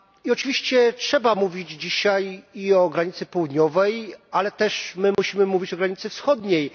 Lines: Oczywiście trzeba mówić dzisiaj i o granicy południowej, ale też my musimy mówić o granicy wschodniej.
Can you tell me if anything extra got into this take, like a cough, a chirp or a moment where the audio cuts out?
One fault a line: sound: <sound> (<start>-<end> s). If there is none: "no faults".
sound: dropout (5.1-5.2 s)